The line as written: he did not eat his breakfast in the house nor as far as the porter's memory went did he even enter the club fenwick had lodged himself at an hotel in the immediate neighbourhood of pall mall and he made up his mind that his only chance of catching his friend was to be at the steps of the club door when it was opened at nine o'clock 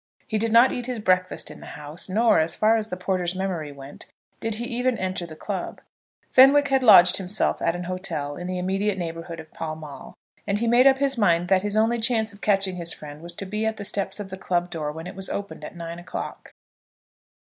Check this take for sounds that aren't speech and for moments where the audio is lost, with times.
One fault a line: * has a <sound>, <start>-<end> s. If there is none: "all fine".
all fine